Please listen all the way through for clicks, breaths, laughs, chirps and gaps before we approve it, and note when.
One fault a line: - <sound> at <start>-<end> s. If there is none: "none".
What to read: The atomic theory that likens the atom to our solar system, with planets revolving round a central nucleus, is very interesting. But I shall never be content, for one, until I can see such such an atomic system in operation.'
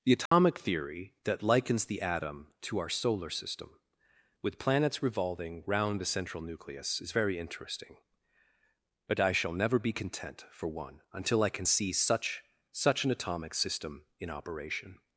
- dropout at 0.3-0.3 s